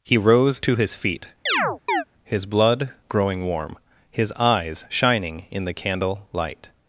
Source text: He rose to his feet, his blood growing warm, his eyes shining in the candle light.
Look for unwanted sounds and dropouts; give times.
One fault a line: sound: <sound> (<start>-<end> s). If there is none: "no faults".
sound: chirp (1.5-2.0 s)